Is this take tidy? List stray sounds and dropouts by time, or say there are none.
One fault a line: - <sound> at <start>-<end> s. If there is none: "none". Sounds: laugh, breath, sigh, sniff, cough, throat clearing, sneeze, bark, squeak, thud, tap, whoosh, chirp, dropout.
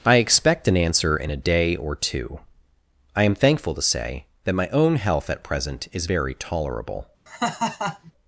- laugh at 7.3-8.1 s